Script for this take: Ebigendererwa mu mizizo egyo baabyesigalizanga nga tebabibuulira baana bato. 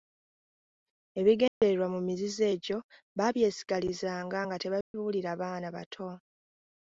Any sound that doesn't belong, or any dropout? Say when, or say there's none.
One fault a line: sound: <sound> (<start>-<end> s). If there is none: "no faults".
sound: dropout (1.5-1.6 s)
sound: dropout (4.8-4.9 s)